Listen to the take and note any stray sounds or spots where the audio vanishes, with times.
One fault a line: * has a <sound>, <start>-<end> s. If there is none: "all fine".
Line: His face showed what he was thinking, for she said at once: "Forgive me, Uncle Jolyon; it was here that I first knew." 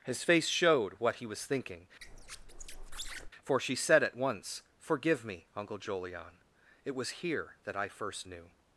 * has a squeak, 2.0-3.3 s